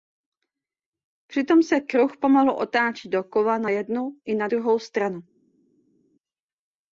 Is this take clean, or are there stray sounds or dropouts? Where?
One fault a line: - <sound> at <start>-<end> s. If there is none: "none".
none